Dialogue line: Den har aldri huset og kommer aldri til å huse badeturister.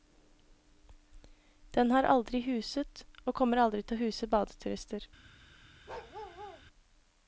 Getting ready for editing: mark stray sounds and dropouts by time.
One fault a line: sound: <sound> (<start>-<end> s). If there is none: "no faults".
sound: bark (5.9-6.6 s)